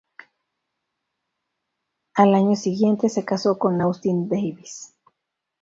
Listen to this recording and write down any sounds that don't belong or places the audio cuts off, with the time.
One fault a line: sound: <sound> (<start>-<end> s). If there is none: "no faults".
no faults